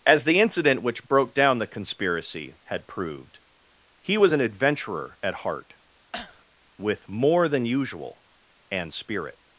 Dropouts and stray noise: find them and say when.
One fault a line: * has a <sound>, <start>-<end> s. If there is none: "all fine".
* has a cough, 6.1-6.4 s